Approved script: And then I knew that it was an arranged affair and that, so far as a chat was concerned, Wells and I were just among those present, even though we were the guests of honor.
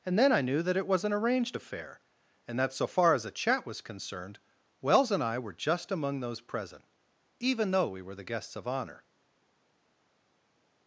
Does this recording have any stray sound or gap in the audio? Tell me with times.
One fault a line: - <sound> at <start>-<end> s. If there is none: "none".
none